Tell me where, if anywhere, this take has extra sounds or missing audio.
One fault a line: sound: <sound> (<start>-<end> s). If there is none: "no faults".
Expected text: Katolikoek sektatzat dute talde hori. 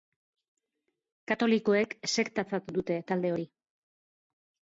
no faults